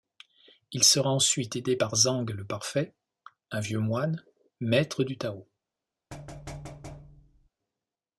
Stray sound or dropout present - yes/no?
yes